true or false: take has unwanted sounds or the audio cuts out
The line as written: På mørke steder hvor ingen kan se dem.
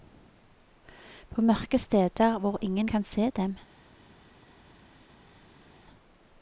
false